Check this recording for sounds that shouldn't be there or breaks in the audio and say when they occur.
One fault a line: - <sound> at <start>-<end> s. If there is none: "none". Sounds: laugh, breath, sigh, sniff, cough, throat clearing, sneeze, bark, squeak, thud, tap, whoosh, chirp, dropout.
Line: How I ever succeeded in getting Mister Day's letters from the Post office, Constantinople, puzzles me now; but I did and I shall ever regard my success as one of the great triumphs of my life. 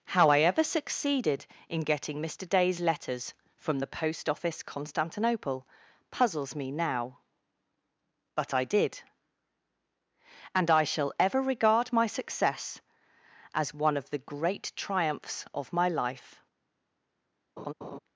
- laugh at 17.6-18.0 s